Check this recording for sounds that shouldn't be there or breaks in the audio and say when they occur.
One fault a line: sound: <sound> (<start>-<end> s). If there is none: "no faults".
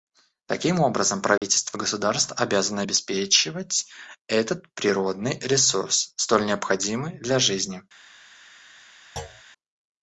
sound: dropout (1.4-1.4 s)
sound: thud (9.2-9.4 s)